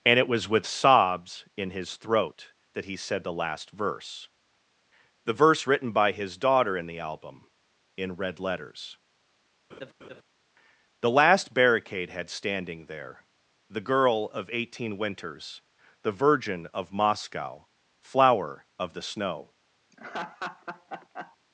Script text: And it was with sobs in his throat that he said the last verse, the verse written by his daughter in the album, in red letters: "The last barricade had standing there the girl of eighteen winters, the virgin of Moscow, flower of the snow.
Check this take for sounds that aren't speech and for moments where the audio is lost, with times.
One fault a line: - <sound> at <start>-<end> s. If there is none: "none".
- laugh at 9.7-10.2 s
- laugh at 19.9-21.4 s